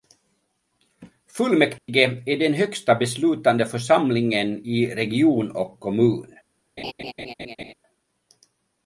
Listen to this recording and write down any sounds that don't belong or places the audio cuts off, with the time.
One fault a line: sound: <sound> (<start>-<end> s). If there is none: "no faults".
sound: dropout (1.8-1.9 s)
sound: laugh (6.8-7.7 s)